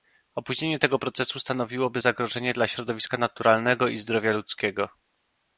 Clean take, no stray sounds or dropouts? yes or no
yes